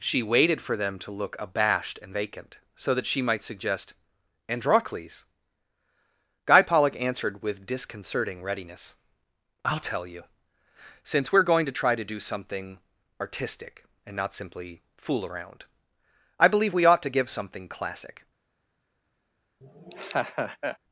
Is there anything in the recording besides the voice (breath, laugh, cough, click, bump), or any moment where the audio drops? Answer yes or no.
yes